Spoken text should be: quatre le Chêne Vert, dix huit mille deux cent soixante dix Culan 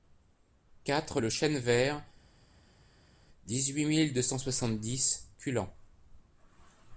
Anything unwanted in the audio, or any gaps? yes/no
no